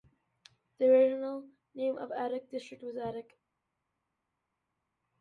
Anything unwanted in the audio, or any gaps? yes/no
no